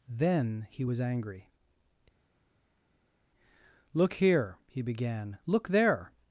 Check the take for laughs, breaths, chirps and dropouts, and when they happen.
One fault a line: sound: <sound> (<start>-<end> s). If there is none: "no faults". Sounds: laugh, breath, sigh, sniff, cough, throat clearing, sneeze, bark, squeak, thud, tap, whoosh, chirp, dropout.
no faults